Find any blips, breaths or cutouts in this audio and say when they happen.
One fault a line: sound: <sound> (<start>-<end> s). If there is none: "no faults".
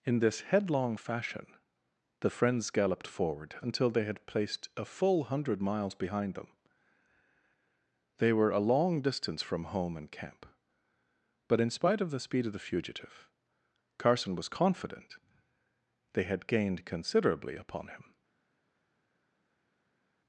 no faults